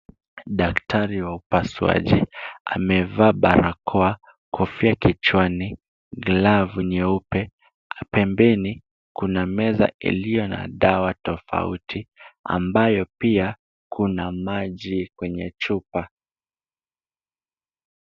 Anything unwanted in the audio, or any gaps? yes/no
no